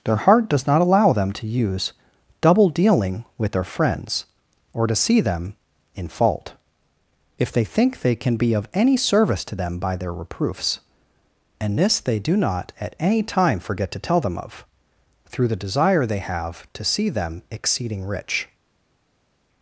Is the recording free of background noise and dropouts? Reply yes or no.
yes